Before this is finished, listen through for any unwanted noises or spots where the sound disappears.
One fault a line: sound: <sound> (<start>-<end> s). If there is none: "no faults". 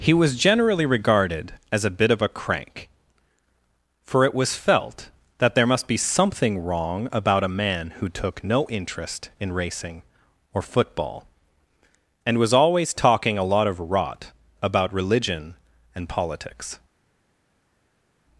no faults